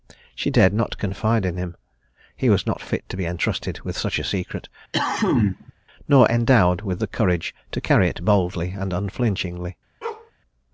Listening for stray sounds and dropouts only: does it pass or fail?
fail